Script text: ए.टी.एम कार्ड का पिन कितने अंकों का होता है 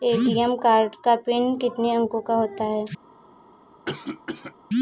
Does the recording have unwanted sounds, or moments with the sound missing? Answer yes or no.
yes